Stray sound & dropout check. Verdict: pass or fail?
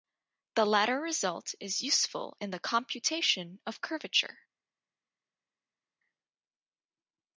pass